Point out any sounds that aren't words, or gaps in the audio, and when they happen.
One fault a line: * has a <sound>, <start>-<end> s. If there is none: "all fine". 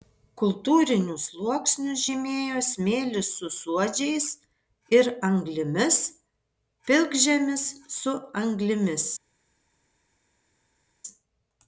all fine